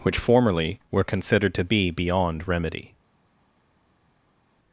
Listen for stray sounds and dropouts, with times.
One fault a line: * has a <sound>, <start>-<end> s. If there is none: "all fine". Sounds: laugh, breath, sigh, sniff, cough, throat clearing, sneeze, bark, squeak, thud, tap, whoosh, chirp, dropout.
all fine